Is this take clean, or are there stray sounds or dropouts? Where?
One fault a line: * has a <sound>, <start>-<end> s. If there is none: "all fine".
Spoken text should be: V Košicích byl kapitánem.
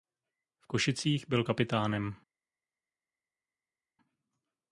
all fine